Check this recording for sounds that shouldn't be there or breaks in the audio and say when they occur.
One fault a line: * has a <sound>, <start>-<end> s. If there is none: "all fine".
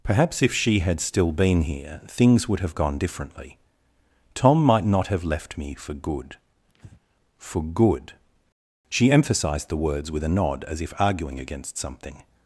* has a breath, 6.7-7.0 s